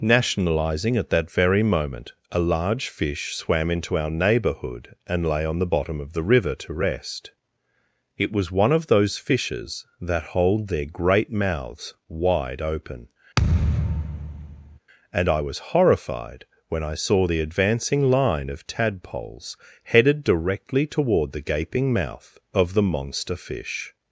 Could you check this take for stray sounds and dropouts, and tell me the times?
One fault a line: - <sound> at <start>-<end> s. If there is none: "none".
- thud at 13.4-14.8 s